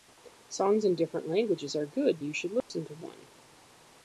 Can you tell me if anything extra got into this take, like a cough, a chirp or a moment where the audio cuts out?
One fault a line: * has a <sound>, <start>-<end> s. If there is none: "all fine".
* has a dropout, 2.6-2.7 s